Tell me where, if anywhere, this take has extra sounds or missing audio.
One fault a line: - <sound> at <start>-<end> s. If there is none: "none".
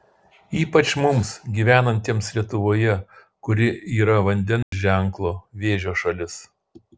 - dropout at 4.6-4.7 s